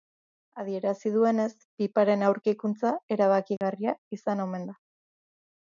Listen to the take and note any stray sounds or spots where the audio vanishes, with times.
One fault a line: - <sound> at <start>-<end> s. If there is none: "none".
- dropout at 3.6-3.6 s